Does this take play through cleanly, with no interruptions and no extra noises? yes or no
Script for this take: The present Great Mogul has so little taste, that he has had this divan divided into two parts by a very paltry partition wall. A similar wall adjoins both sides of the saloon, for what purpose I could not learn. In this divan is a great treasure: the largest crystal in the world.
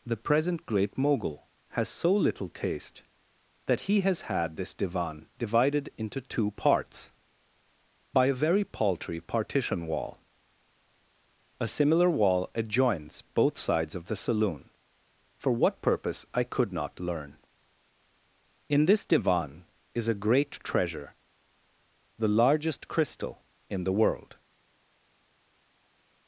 yes